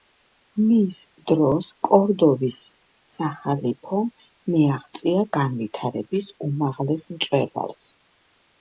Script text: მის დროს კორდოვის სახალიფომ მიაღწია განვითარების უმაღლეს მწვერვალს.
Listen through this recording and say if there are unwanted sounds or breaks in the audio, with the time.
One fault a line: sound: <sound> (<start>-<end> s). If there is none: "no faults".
no faults